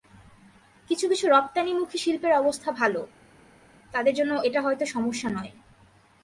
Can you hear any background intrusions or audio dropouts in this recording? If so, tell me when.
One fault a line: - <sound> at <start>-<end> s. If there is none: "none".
none